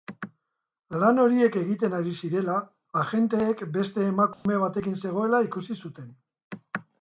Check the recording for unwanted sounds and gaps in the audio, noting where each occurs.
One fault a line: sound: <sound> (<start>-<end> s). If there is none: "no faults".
sound: dropout (4.3-4.5 s)